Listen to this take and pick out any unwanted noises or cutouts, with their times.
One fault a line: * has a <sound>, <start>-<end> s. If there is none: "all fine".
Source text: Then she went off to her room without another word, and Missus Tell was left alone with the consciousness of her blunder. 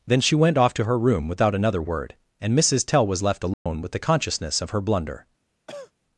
* has a dropout, 3.5-3.7 s
* has a cough, 5.7-5.9 s